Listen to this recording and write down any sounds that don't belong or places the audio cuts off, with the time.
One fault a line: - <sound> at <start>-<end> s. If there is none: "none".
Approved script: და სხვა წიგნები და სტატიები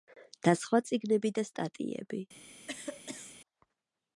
- cough at 2.7-3.4 s